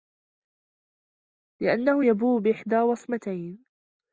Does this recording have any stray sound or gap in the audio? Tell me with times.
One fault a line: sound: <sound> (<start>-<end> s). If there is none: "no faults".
no faults